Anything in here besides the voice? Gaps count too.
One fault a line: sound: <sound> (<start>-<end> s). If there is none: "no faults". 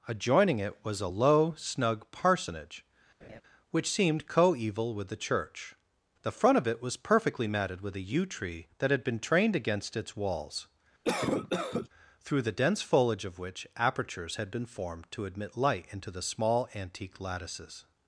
sound: laugh (3.2-3.4 s)
sound: cough (11.0-11.9 s)